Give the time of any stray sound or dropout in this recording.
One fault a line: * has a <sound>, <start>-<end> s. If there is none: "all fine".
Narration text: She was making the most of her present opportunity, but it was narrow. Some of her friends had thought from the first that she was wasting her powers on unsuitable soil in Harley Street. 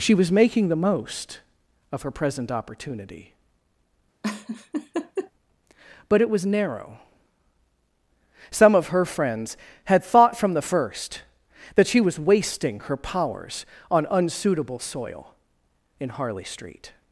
* has a laugh, 4.2-5.3 s